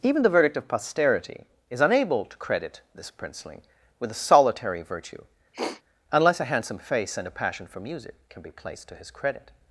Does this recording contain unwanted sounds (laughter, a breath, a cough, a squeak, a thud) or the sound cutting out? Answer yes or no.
yes